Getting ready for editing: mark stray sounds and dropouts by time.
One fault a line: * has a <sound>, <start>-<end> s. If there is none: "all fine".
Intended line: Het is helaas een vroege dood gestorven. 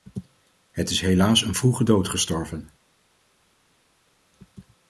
all fine